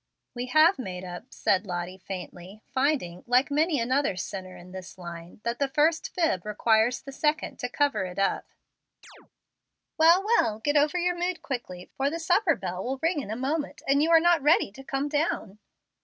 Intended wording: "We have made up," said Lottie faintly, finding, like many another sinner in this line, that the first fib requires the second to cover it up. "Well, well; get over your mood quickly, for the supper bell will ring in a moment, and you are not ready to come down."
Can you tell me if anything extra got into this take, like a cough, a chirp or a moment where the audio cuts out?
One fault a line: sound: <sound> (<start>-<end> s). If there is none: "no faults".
sound: chirp (9.0-9.3 s)